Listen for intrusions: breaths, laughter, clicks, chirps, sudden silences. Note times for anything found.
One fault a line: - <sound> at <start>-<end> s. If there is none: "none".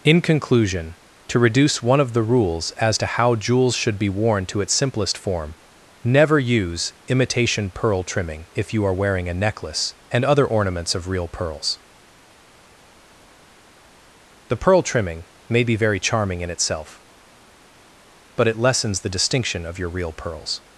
none